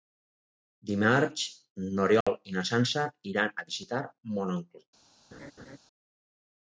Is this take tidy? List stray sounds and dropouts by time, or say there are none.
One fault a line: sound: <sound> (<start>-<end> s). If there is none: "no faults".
sound: dropout (2.2-2.3 s)
sound: laugh (5.3-5.8 s)